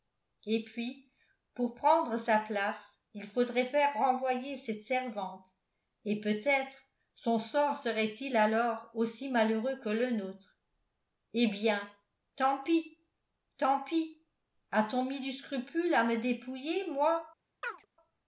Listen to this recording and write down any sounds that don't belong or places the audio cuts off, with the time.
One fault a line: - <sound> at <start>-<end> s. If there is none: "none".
- chirp at 17.6-17.9 s